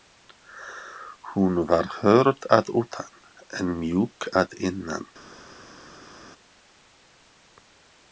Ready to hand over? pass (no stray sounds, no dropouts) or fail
pass